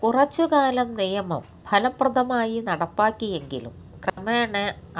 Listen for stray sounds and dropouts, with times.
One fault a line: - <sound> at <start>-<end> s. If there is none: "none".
- dropout at 4.1-4.2 s